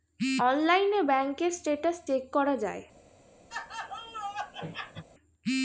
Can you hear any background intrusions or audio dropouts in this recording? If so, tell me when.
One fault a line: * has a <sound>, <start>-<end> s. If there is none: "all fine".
* has a laugh, 3.5-5.0 s